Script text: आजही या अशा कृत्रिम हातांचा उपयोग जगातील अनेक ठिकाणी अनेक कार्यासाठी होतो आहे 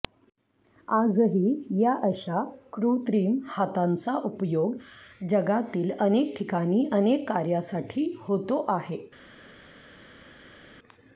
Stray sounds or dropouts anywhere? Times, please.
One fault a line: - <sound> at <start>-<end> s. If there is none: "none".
none